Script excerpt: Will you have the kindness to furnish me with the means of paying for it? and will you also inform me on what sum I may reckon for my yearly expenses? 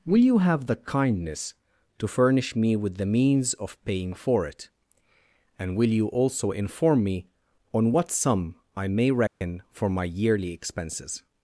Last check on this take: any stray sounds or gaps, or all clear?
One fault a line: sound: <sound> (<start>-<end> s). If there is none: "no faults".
sound: dropout (9.3-9.4 s)